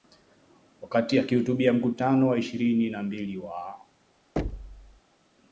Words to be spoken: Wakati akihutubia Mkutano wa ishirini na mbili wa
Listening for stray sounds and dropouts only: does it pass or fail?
fail